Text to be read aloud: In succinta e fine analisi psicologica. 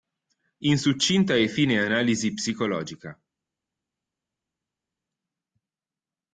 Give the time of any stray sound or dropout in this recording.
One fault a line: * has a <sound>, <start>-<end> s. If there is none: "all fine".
all fine